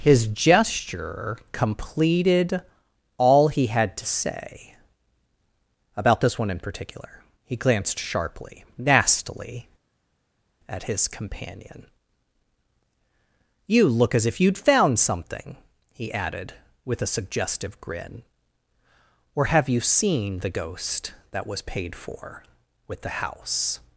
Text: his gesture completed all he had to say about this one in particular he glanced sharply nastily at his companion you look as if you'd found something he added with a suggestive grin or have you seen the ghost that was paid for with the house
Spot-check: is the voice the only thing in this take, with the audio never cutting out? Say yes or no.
yes